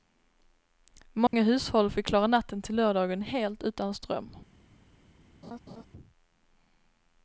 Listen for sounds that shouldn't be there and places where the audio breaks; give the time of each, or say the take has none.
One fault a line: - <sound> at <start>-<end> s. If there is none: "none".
- dropout at 1.3-1.3 s
- laugh at 5.4-5.9 s